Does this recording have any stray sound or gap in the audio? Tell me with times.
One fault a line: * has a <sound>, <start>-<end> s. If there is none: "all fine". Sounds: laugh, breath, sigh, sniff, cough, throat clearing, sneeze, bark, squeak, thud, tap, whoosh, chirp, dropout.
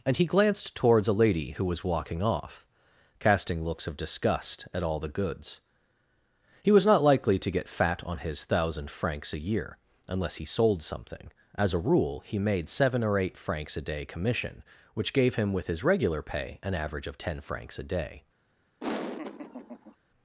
* has a laugh, 18.8-20.0 s